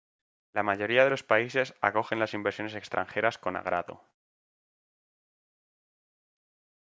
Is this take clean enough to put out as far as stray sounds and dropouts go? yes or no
yes